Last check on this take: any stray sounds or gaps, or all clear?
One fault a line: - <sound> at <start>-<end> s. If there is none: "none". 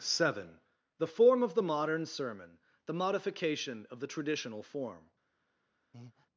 - breath at 5.9-6.3 s